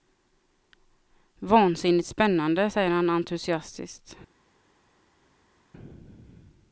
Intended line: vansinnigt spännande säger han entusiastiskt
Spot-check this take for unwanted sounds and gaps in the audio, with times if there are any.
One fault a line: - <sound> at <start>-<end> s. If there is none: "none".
none